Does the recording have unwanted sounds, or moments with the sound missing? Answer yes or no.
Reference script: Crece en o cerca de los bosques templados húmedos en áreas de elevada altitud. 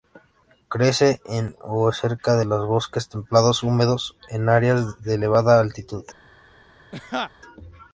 yes